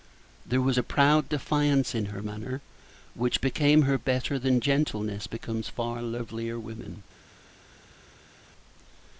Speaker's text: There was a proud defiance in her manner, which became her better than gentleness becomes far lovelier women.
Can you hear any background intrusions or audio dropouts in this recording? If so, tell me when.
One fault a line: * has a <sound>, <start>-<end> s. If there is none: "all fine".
all fine